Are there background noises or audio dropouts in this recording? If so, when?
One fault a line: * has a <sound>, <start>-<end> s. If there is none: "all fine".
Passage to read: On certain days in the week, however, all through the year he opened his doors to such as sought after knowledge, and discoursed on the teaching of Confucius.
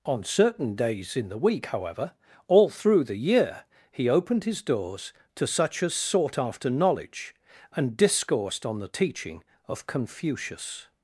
all fine